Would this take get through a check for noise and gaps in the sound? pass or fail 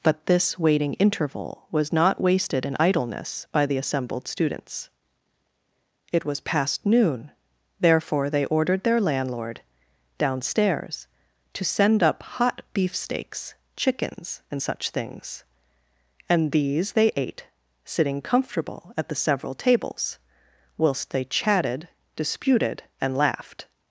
pass